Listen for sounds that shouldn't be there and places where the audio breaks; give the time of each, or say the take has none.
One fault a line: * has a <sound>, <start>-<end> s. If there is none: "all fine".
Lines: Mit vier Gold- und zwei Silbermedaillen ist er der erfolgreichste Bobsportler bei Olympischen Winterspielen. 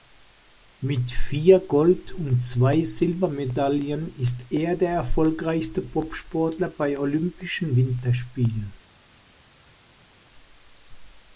all fine